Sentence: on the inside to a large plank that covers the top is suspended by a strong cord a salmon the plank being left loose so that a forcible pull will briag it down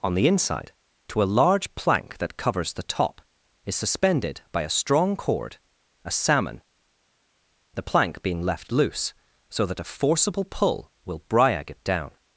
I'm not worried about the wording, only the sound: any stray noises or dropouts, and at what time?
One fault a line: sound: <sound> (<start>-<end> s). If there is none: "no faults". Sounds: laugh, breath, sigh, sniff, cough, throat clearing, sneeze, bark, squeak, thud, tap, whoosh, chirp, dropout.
no faults